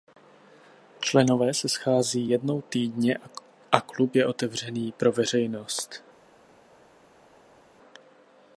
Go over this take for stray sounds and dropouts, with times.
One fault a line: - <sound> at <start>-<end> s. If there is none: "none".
none